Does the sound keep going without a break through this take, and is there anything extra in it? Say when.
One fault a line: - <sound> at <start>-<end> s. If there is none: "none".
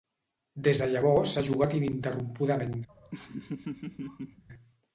- laugh at 2.9-4.4 s